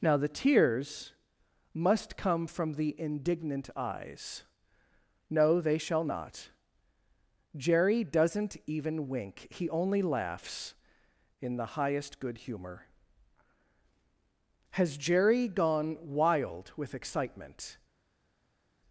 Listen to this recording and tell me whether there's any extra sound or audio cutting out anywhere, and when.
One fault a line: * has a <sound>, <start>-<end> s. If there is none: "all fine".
all fine